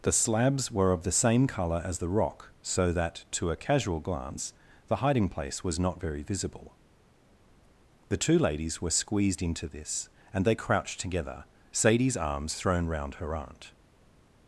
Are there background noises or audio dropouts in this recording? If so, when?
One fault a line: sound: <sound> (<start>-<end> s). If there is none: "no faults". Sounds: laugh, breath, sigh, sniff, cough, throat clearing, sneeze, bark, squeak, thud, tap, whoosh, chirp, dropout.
no faults